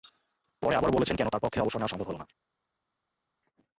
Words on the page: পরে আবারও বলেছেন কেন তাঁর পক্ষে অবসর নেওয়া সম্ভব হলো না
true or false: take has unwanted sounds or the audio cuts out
false